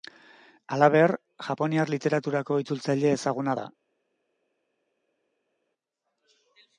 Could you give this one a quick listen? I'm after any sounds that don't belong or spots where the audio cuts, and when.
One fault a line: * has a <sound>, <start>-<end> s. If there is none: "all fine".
all fine